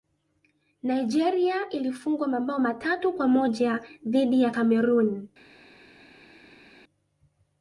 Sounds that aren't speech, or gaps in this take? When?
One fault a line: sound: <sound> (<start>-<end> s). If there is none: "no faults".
no faults